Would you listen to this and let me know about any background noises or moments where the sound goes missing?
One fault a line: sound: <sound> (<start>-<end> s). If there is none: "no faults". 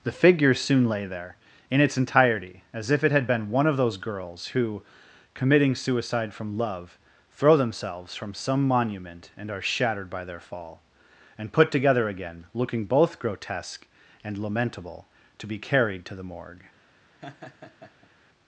sound: laugh (17.2-18.1 s)